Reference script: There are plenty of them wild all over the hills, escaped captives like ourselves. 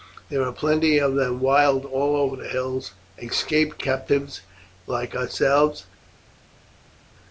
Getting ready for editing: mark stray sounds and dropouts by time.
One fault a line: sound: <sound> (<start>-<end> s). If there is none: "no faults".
no faults